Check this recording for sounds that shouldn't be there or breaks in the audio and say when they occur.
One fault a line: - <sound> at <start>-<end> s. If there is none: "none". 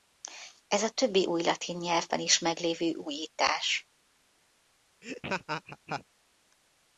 - laugh at 5.0-6.0 s